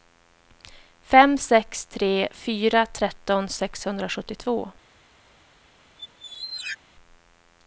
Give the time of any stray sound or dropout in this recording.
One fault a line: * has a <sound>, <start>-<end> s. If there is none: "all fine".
* has a squeak, 6.0-6.8 s